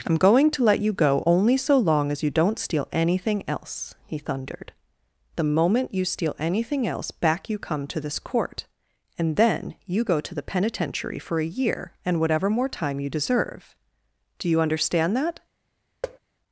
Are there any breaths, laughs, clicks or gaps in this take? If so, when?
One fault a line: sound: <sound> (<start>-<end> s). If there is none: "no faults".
sound: thud (16.0-16.2 s)